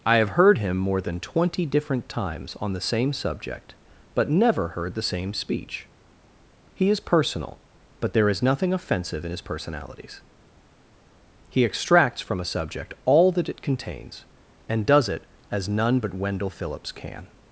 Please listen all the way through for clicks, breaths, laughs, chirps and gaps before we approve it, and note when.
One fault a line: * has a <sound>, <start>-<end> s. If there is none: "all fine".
all fine